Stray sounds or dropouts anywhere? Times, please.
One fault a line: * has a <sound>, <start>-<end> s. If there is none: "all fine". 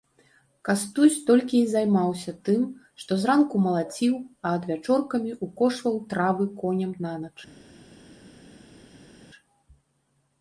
all fine